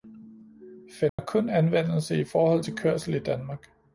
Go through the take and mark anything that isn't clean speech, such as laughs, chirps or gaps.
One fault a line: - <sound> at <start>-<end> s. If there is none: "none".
- dropout at 1.1-1.2 s